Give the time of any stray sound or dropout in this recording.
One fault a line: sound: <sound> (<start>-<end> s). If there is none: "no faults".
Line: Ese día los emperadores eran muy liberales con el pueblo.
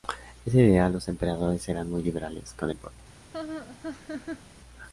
sound: laugh (3.3-4.4 s)